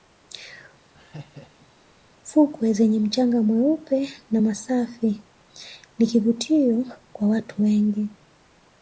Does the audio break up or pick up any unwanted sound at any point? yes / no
yes